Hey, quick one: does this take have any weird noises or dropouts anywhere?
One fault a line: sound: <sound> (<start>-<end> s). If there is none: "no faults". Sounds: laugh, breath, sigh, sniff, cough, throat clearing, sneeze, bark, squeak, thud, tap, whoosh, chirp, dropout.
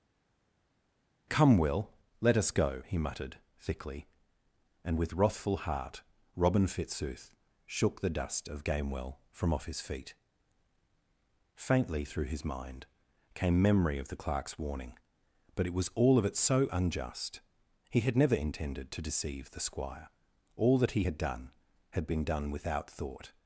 no faults